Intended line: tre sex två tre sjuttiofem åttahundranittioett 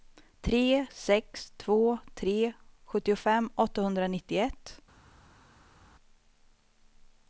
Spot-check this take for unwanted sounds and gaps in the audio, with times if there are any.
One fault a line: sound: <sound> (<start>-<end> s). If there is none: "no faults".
no faults